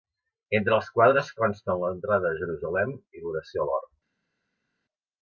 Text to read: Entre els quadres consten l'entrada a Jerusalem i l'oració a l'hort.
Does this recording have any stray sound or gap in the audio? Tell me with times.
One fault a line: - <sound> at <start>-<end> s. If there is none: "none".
none